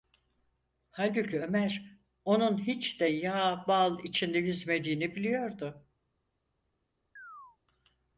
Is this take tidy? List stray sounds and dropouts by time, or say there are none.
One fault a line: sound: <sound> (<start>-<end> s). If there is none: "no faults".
sound: chirp (7.2-7.6 s)